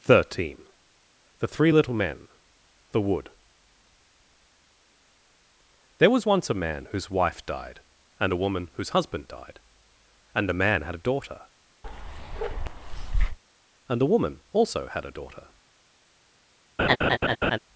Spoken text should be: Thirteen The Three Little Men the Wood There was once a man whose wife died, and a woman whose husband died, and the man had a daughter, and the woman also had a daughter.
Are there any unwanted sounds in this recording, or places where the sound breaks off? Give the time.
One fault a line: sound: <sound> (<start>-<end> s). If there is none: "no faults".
sound: bark (11.8-13.4 s)
sound: laugh (16.8-17.6 s)